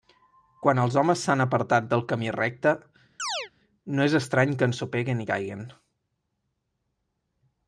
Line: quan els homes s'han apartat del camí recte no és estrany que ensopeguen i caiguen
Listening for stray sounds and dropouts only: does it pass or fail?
fail